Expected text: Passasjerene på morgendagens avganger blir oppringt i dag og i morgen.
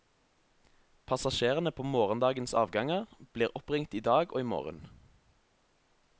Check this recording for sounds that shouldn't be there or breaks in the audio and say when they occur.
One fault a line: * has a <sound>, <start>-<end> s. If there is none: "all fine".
all fine